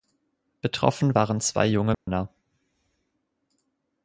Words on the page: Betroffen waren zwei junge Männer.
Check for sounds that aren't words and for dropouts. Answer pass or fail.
fail